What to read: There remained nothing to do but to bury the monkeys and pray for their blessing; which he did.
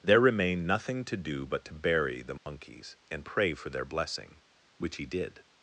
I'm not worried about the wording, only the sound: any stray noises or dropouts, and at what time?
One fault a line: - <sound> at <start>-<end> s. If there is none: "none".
- dropout at 2.4-2.5 s